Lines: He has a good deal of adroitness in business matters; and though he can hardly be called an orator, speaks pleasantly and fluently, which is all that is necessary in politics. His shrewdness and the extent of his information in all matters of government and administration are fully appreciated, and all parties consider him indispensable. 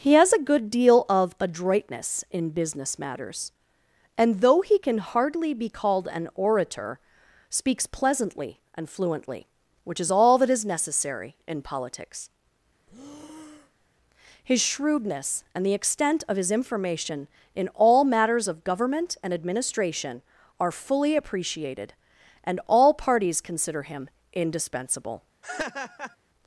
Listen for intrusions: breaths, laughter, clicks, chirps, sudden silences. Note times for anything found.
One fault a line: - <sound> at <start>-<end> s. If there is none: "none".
- breath at 12.9-13.9 s
- laugh at 25.4-26.2 s